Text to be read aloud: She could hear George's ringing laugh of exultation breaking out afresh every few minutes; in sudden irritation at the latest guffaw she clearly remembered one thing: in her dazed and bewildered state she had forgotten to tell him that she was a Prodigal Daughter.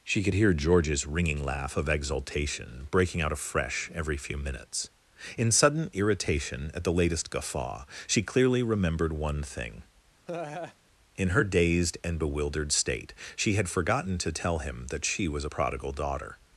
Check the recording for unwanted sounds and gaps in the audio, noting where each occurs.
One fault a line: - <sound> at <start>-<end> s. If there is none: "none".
- laugh at 10.3-10.8 s